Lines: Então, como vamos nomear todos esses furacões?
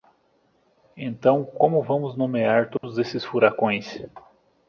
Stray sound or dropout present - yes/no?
yes